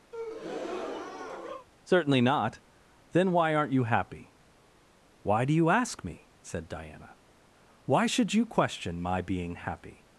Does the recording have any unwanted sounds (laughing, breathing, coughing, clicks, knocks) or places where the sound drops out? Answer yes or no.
yes